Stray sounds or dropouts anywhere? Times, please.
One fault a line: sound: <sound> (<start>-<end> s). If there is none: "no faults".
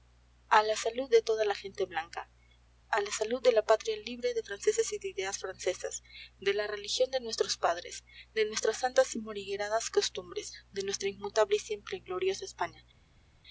no faults